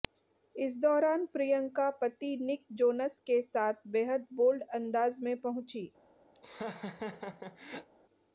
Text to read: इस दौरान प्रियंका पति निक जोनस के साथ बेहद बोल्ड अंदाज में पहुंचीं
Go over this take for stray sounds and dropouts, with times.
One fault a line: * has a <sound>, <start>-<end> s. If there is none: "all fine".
* has a laugh, 6.3-7.9 s